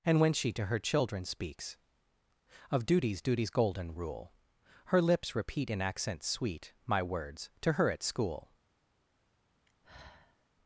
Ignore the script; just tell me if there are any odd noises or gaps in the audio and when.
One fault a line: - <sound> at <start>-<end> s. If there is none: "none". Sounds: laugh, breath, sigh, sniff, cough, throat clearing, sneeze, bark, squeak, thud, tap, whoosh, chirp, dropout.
- sigh at 9.7-10.5 s